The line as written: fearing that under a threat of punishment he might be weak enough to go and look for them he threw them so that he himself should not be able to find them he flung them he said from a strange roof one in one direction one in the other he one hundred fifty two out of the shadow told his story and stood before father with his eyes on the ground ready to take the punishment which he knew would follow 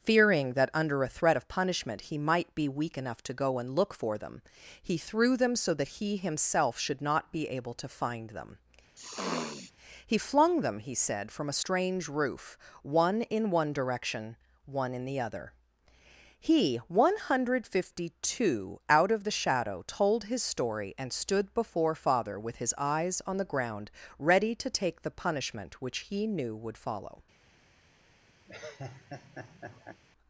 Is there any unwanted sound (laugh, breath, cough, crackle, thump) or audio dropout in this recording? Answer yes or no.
yes